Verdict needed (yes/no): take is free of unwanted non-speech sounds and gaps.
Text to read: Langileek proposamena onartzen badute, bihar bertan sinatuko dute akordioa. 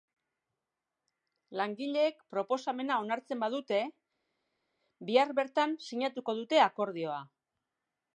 yes